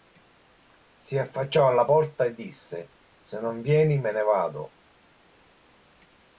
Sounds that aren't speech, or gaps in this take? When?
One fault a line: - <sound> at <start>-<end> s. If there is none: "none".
none